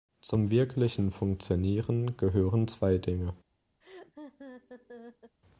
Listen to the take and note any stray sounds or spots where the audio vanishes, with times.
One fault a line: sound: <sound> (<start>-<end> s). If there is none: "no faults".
sound: laugh (3.8-5.3 s)